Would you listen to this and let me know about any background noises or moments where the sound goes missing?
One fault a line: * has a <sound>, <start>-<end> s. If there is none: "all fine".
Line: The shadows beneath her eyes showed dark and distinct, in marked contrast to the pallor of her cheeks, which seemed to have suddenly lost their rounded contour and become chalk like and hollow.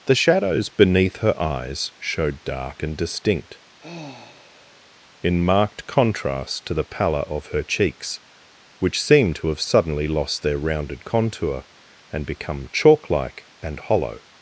* has a sigh, 3.8-4.9 s